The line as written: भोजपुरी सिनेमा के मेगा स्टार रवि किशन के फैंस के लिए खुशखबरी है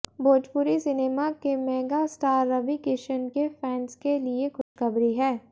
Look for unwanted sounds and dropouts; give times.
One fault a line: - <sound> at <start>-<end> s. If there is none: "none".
- dropout at 4.6-4.8 s